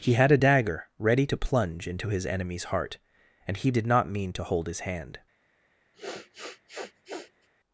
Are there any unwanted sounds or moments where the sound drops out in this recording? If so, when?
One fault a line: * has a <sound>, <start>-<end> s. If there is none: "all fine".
* has a sniff, 5.9-7.5 s